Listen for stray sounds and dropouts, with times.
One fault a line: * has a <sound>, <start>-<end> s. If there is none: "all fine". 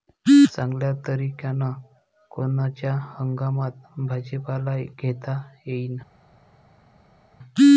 all fine